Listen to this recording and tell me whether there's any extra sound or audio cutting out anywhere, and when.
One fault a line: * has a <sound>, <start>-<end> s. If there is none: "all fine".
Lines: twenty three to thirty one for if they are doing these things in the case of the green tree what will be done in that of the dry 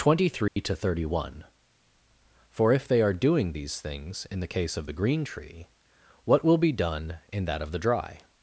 * has a dropout, 0.5-0.6 s